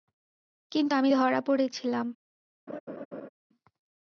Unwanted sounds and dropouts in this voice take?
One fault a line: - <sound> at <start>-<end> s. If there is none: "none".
- laugh at 2.7-3.3 s